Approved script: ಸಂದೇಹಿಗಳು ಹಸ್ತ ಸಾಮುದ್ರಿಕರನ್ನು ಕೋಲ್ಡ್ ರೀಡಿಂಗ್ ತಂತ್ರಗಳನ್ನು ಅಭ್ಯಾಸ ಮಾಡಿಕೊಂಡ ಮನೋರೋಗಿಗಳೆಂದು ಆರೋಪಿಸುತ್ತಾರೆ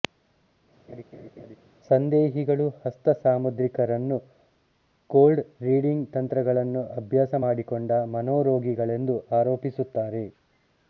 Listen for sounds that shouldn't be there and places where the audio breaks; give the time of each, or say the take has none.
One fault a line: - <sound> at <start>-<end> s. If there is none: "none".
- laugh at 0.9-1.6 s